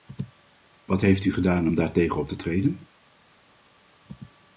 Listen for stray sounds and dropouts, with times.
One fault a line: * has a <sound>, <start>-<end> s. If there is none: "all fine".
all fine